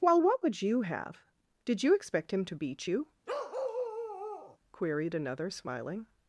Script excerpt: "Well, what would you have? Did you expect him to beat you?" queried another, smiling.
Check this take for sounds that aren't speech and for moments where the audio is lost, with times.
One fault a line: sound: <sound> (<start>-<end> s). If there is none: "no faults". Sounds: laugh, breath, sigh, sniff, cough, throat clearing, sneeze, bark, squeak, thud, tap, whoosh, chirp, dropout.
sound: bark (3.3-4.6 s)